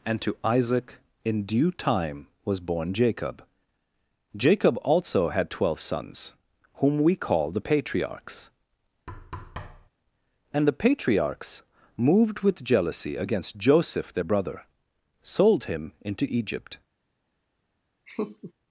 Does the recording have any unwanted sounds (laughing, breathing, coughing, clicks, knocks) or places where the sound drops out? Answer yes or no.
yes